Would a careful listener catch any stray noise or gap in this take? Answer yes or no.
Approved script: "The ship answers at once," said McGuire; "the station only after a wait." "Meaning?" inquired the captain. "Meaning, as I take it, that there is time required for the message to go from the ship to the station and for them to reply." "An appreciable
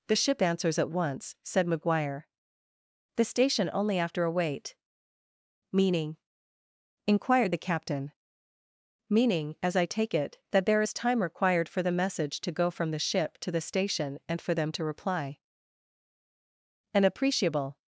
no